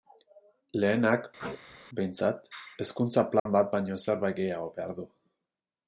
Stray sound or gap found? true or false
true